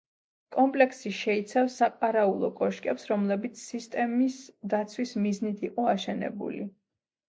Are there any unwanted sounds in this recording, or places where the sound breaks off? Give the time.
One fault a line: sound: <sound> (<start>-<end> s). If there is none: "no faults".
no faults